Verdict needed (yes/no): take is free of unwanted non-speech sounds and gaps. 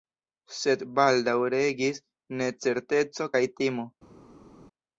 yes